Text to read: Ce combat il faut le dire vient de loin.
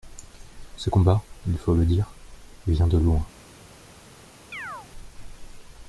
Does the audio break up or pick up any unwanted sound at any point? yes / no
yes